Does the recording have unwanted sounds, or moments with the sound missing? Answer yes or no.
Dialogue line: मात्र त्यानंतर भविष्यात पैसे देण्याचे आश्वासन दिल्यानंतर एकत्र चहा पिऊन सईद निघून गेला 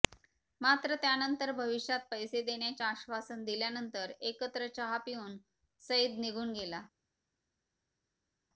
no